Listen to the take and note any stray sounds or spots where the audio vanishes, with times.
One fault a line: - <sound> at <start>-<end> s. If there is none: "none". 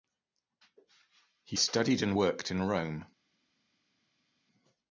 none